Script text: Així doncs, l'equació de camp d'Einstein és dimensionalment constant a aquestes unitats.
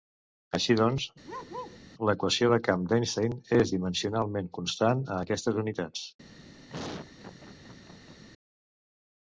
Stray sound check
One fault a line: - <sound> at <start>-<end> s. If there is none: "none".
- bark at 1.2-1.8 s
- laugh at 6.7-8.2 s